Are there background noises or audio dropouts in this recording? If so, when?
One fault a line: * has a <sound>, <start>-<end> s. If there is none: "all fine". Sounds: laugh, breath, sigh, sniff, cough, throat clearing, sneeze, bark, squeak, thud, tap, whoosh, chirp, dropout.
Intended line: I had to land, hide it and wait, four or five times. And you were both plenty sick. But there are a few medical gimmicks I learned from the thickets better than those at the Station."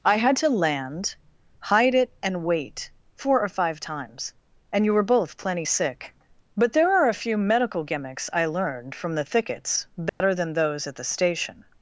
* has a dropout, 10.1-10.2 s